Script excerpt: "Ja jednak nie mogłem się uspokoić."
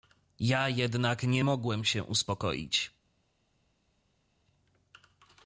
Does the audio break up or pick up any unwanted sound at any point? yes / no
no